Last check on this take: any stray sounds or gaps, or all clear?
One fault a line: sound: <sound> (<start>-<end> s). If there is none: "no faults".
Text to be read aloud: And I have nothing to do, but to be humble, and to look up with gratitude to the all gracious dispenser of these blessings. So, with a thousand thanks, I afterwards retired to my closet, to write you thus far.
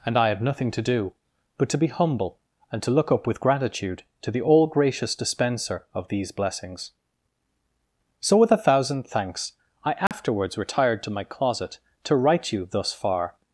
sound: dropout (10.1-10.1 s)